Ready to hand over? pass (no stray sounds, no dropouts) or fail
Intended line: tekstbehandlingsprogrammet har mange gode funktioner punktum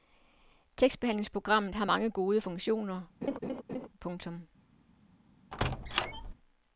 fail